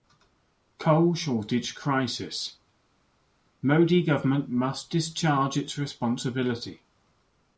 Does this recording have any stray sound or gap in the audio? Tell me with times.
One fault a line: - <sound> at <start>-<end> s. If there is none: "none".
none